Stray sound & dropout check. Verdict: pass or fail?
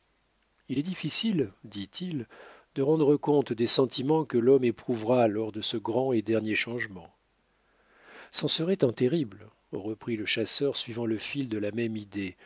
pass